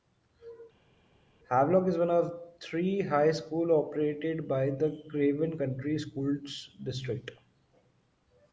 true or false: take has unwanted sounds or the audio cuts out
false